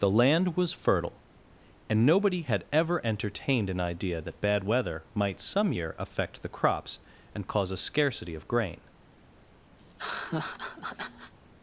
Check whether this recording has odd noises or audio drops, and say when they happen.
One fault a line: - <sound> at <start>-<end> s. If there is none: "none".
- laugh at 9.8-11.3 s